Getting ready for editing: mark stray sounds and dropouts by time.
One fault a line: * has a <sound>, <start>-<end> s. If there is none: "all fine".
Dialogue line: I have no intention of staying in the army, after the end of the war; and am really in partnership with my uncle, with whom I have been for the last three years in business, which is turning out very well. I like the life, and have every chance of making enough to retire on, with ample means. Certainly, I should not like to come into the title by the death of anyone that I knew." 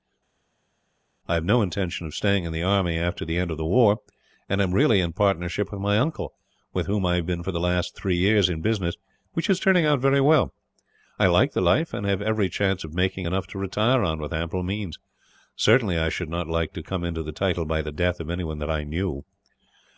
all fine